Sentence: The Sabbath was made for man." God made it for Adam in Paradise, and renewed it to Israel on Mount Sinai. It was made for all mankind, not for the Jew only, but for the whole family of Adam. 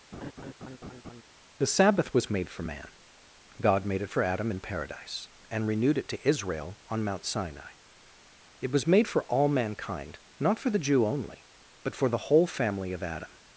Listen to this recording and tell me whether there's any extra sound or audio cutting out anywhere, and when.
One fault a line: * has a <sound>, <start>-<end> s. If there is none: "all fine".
* has a laugh, 0.1-1.2 s